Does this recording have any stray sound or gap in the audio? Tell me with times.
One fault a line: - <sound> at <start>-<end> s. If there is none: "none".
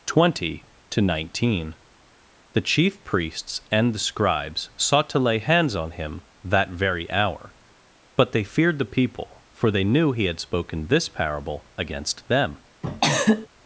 - cough at 12.8-13.5 s